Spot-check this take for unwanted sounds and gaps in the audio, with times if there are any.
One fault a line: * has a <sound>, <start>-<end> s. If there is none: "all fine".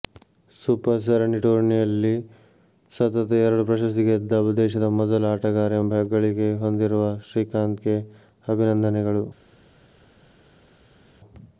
all fine